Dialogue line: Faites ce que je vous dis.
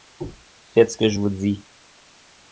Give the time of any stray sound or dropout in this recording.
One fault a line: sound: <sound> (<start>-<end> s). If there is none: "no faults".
no faults